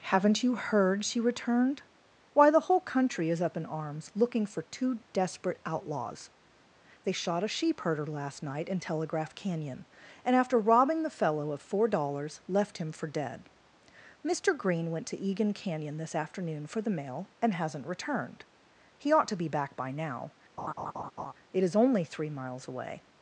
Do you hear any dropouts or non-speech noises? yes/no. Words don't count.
yes